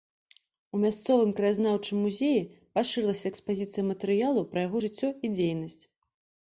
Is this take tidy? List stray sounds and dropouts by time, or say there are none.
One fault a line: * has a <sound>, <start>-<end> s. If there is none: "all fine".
all fine